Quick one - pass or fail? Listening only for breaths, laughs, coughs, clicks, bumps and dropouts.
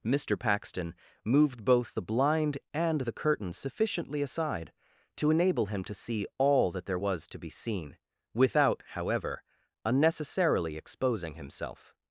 pass